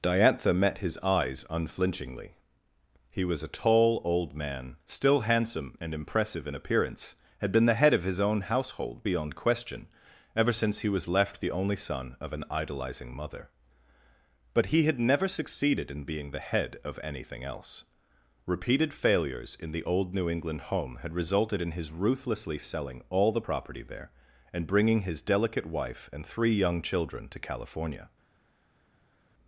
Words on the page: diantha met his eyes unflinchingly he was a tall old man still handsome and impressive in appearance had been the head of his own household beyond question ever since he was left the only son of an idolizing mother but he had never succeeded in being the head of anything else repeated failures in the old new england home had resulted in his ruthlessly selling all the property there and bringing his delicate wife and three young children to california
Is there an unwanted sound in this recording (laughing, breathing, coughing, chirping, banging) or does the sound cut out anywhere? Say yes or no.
no